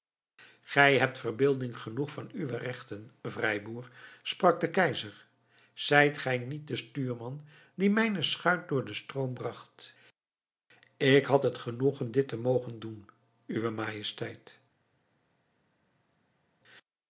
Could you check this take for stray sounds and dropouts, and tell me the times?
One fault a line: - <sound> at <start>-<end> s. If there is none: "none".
none